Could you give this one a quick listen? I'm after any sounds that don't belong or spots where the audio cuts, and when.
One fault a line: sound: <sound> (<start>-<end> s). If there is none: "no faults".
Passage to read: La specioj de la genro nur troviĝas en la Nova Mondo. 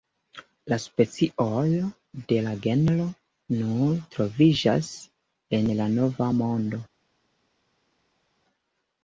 no faults